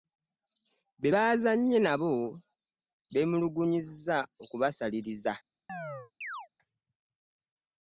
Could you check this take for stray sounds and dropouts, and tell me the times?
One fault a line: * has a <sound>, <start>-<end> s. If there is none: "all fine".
* has a chirp, 5.7-6.5 s